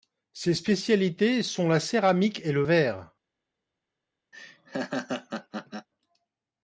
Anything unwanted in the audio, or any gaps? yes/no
yes